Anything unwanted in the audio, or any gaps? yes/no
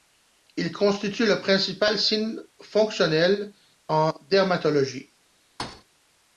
yes